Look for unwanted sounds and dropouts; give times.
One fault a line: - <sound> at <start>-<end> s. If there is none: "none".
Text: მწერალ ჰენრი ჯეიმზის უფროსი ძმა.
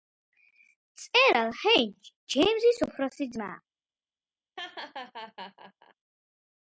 - laugh at 4.6-5.9 s